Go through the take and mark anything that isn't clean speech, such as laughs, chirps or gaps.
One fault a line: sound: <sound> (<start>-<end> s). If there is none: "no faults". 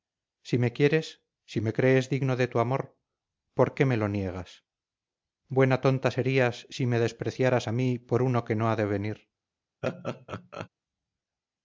sound: laugh (9.8-10.7 s)